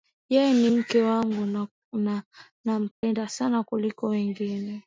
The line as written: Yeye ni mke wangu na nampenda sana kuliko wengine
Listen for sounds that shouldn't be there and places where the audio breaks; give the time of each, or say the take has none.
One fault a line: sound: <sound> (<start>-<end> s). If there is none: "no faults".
sound: dropout (2.9-3.0 s)